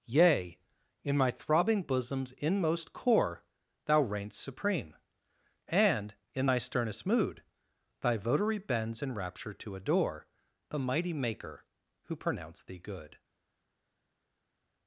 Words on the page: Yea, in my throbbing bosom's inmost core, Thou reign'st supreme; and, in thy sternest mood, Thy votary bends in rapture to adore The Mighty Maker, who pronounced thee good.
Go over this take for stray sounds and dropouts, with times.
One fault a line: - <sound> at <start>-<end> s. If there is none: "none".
none